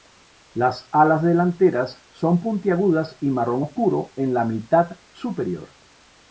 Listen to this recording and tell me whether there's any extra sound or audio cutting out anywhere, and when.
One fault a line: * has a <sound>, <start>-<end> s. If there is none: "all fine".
all fine